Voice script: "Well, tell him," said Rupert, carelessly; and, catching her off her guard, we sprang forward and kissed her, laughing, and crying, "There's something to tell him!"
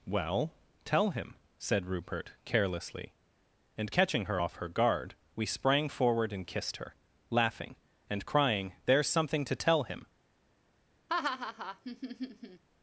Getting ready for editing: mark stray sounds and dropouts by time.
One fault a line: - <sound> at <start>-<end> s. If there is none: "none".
- laugh at 11.1-12.6 s